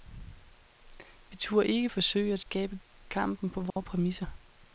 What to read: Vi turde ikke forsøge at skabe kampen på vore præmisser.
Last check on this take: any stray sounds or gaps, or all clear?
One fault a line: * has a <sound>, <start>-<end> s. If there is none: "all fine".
* has a dropout, 2.4-2.5 s
* has a dropout, 3.7-3.8 s